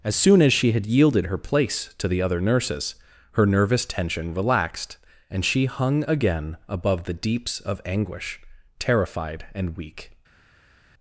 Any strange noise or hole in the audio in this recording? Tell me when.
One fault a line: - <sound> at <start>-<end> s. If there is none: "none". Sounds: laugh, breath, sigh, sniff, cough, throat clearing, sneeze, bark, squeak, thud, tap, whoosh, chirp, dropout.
none